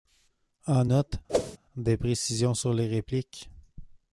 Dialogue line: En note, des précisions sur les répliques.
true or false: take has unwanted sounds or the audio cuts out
true